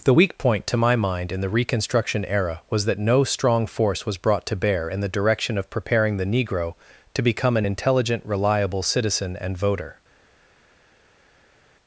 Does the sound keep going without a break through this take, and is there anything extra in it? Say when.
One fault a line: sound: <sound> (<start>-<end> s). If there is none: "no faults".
no faults